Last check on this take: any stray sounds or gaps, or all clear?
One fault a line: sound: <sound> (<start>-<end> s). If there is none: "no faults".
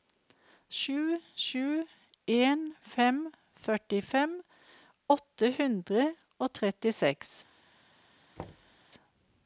sound: thud (8.4-8.8 s)